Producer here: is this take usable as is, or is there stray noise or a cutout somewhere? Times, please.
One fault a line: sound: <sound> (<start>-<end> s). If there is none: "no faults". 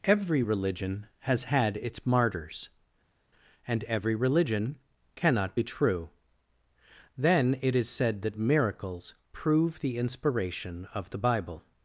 no faults